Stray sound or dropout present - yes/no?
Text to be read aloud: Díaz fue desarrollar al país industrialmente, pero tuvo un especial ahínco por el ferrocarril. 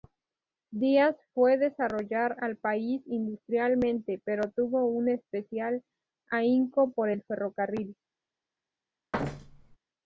yes